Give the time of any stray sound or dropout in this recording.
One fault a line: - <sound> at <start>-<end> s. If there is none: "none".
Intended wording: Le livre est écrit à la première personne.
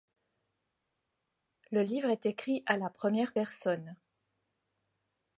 none